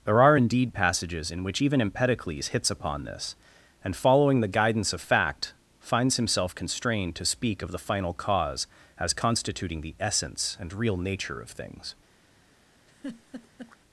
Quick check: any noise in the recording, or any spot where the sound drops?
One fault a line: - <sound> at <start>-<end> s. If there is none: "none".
- laugh at 12.9-13.8 s